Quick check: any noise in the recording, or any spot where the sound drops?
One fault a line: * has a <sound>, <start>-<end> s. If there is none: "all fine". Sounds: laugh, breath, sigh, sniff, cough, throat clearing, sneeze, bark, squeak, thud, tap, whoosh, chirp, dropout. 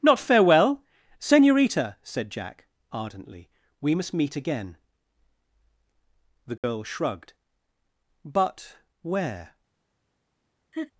* has a dropout, 6.6-6.6 s
* has a laugh, 10.7-10.9 s